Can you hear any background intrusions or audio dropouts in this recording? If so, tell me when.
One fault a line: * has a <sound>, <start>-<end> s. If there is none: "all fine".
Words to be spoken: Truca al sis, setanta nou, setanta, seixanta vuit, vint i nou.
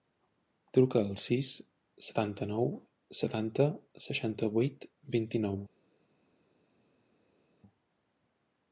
all fine